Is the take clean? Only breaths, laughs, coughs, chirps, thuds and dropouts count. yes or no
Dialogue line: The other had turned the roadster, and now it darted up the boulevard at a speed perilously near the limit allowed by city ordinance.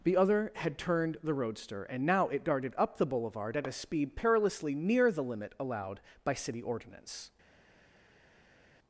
yes